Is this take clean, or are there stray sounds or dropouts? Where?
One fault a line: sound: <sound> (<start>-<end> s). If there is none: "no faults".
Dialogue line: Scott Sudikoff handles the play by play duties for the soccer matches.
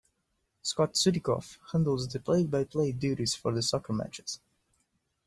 no faults